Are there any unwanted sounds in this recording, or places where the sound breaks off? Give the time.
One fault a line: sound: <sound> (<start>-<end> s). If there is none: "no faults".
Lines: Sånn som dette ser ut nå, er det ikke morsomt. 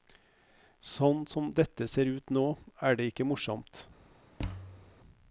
sound: thud (4.4-4.9 s)